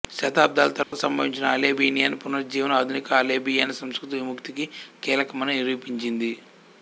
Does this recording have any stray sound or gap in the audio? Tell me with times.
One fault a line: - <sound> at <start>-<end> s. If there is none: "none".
- dropout at 0.8-0.9 s